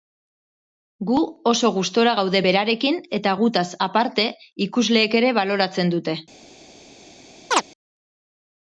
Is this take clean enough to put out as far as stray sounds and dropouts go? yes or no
no